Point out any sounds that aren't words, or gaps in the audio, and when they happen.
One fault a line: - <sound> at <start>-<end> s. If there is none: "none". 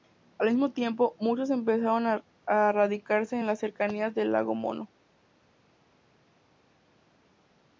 none